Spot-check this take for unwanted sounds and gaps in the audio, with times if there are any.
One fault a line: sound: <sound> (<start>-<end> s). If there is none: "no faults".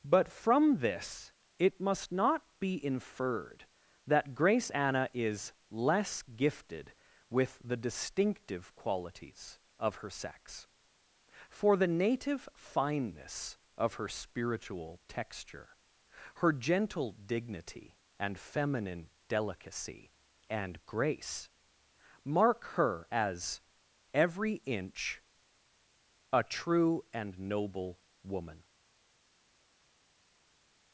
no faults